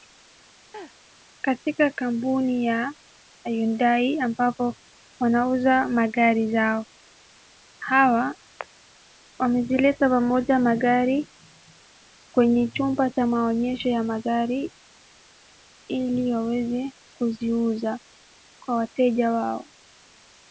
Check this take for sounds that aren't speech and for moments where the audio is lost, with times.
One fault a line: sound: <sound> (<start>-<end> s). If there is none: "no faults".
sound: laugh (0.7-1.0 s)